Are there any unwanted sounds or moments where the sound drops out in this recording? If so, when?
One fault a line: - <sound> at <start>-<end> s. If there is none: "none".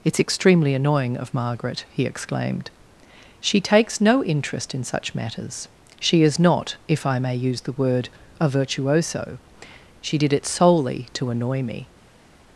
none